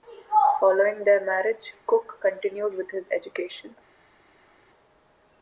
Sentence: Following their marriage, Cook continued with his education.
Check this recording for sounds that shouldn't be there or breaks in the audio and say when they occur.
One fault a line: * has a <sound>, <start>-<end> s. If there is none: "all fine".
all fine